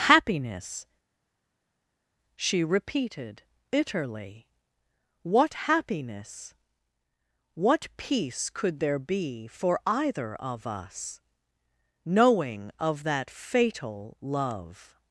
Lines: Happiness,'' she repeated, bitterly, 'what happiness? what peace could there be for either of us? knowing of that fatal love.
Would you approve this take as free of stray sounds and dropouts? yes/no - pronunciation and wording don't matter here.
yes